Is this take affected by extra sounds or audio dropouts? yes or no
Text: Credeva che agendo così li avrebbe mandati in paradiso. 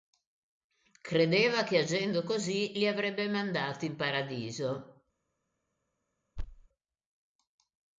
yes